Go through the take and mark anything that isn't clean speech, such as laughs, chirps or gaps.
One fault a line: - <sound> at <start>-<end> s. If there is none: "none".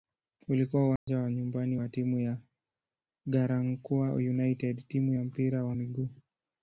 - dropout at 1.0-1.1 s